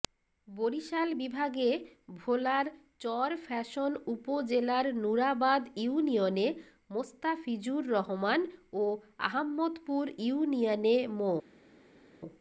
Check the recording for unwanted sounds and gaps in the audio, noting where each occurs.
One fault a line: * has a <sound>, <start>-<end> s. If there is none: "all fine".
all fine